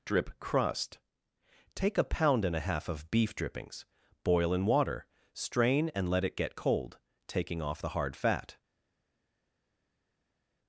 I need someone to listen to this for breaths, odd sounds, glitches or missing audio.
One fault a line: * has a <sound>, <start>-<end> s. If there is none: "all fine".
all fine